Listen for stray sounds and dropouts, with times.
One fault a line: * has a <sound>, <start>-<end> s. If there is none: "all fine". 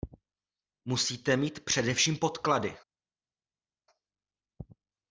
all fine